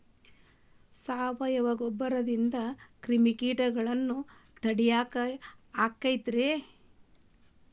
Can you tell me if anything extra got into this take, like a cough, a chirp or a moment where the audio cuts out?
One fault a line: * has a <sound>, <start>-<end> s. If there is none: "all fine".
all fine